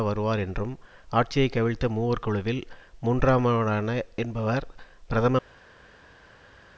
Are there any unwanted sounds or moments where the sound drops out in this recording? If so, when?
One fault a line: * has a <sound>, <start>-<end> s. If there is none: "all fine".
all fine